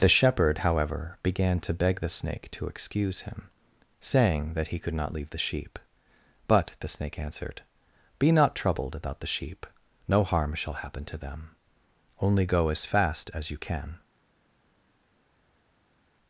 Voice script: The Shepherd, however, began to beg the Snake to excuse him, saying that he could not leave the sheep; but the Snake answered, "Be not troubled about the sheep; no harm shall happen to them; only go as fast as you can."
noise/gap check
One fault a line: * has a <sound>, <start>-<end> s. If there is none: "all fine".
all fine